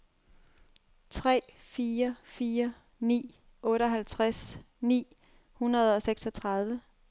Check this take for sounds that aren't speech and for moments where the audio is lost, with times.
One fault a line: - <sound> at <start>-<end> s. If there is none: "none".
none